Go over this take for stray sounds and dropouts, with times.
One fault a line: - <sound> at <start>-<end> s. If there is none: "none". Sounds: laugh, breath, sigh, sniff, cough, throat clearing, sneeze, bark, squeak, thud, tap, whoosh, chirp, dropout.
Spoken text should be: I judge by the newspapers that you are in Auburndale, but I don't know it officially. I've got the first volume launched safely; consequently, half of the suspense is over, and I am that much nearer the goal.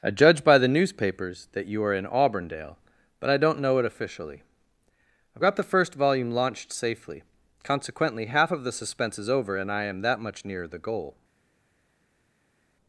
none